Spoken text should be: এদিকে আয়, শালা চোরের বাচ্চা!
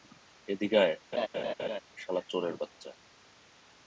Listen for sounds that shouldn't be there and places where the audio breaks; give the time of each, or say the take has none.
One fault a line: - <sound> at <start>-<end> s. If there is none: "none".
- laugh at 1.1-1.8 s